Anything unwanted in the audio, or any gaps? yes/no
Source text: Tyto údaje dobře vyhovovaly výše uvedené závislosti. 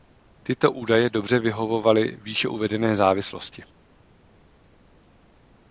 no